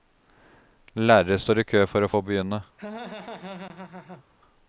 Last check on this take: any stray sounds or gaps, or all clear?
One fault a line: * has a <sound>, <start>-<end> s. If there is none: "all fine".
* has a laugh, 2.8-4.2 s